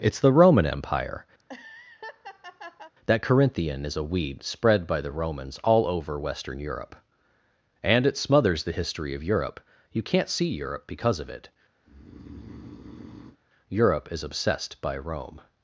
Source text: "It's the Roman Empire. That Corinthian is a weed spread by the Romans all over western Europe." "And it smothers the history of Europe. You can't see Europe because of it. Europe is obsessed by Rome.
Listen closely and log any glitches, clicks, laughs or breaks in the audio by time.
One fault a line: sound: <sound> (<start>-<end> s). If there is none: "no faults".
sound: laugh (1.4-2.9 s)
sound: breath (11.8-13.4 s)